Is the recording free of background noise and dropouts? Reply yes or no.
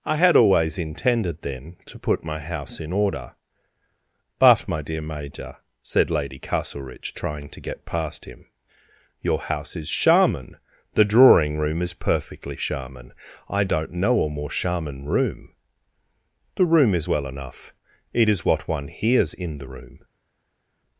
yes